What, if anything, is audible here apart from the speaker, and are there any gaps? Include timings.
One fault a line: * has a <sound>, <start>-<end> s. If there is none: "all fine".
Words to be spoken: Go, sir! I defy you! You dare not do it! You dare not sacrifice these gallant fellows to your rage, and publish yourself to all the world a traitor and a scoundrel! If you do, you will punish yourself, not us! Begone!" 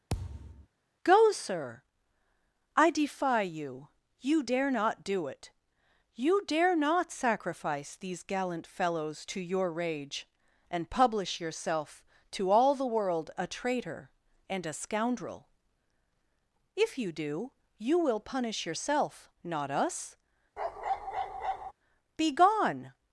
* has a thud, 0.1-0.7 s
* has a bark, 20.6-21.7 s